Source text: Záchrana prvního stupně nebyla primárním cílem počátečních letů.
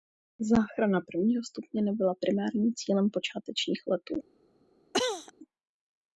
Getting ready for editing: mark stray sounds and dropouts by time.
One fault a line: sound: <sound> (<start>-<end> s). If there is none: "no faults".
sound: cough (4.9-5.3 s)